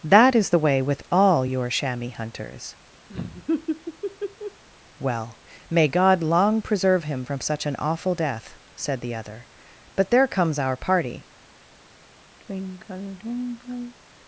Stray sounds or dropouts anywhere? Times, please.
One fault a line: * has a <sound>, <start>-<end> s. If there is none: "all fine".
* has a laugh, 3.1-4.6 s
* has a sigh, 12.4-14.0 s